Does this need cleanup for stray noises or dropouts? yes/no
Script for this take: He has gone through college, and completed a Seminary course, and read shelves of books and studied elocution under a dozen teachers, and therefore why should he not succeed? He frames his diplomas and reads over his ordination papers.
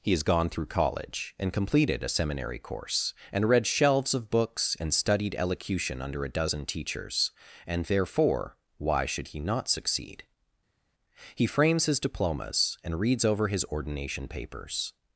no